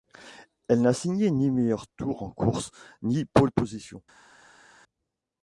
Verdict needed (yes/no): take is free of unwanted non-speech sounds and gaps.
yes